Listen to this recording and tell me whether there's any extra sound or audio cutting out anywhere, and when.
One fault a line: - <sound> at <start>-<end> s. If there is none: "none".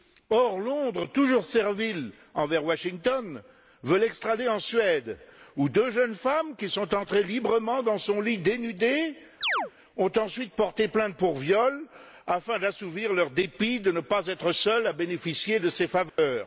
- chirp at 9.4-9.7 s
- dropout at 16.1-16.2 s